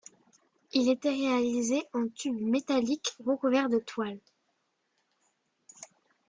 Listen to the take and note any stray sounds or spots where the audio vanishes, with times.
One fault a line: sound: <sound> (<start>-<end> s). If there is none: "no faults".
no faults